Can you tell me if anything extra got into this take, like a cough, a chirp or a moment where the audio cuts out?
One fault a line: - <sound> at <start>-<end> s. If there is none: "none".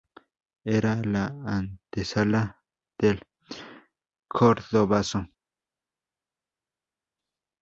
none